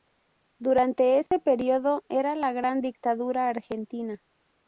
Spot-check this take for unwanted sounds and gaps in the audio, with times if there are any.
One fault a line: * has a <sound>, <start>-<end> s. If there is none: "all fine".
* has a dropout, 1.3-1.3 s